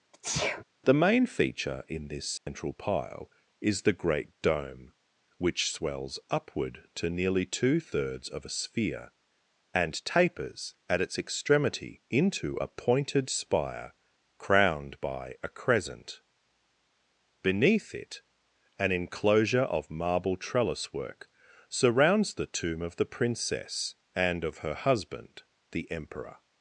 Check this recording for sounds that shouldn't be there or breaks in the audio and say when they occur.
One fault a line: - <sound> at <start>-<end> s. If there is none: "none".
- sneeze at 0.1-0.6 s
- dropout at 2.4-2.5 s